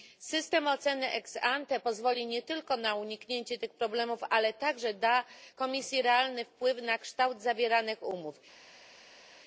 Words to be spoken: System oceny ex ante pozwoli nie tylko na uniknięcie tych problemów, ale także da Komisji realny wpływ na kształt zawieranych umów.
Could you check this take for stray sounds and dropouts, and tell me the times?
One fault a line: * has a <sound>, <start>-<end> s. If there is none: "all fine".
all fine